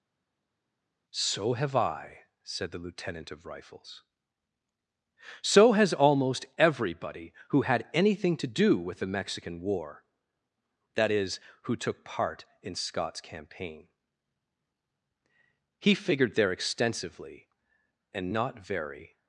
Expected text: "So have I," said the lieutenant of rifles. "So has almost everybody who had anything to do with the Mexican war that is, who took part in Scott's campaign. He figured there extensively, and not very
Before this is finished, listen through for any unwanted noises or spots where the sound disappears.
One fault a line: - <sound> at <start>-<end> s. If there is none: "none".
none